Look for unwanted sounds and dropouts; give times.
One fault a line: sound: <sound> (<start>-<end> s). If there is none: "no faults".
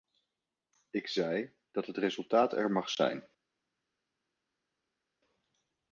no faults